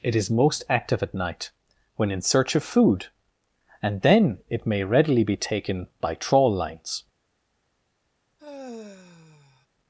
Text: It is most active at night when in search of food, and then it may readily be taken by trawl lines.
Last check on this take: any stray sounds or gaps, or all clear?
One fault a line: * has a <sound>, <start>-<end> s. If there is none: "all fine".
* has a sigh, 8.4-9.7 s